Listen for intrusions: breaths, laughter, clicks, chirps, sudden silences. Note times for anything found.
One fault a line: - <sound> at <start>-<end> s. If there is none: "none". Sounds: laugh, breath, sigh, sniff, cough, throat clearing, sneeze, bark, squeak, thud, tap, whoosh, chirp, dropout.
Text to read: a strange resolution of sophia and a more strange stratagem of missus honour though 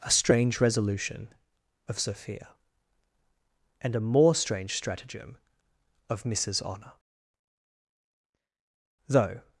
none